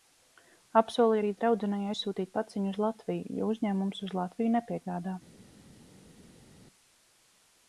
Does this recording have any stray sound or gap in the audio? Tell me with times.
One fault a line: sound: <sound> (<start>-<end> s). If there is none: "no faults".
no faults